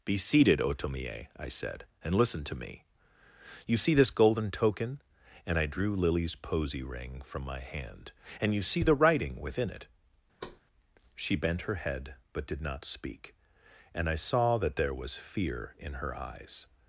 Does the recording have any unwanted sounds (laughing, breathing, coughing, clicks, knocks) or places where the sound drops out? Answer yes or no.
yes